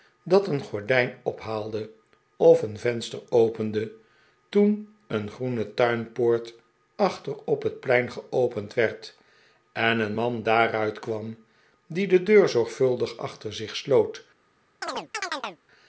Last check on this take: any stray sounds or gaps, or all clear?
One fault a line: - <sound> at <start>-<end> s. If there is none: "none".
- chirp at 14.8-15.6 s